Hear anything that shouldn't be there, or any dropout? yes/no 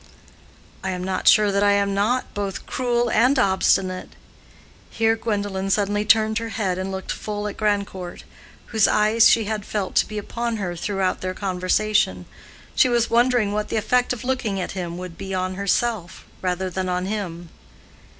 no